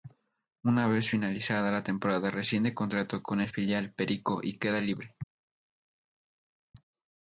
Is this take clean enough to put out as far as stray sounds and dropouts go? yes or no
yes